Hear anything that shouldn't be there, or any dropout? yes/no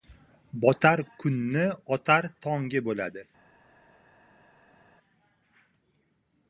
no